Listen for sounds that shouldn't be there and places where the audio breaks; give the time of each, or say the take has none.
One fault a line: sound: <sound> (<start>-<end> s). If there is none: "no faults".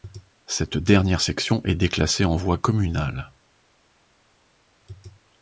no faults